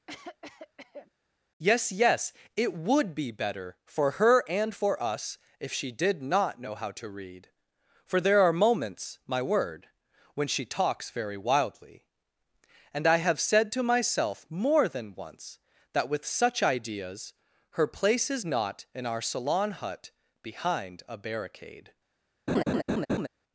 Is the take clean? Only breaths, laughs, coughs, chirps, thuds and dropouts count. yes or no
no